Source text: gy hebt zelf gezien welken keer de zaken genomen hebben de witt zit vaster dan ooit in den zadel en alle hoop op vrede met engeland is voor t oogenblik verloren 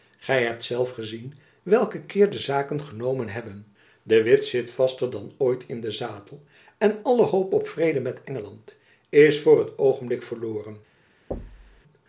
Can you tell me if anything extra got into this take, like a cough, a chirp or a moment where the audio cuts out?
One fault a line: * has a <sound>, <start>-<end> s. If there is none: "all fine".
* has a thud, 11.3-11.8 s